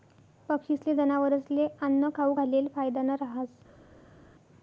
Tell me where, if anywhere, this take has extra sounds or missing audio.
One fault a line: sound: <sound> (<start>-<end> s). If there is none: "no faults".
no faults